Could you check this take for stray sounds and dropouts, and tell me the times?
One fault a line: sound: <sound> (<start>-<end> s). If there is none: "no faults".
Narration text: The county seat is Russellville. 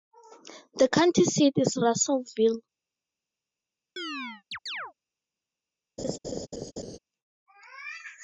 sound: chirp (4.0-4.9 s)
sound: laugh (6.0-7.0 s)